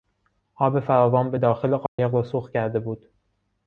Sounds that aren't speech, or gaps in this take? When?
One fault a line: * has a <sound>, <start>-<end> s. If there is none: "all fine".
* has a dropout, 1.9-2.0 s